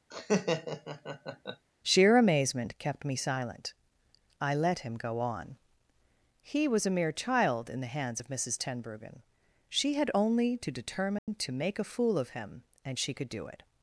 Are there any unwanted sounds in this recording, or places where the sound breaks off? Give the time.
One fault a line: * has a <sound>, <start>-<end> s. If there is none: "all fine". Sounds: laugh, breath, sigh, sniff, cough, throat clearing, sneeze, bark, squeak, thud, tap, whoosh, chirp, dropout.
* has a laugh, 0.1-1.7 s
* has a dropout, 11.2-11.3 s